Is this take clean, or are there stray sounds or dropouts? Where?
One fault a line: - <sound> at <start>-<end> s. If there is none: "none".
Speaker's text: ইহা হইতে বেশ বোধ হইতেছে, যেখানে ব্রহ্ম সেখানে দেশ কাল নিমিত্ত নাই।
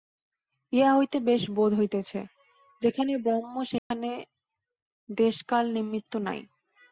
- dropout at 3.8-3.9 s